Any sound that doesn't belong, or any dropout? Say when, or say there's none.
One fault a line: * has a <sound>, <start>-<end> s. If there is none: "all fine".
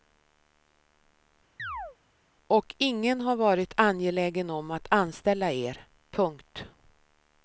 * has a chirp, 1.6-2.0 s